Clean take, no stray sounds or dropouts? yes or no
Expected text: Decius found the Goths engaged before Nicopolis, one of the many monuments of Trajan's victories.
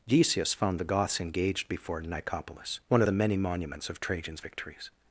yes